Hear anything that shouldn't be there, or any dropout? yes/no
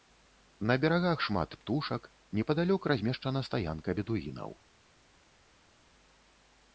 no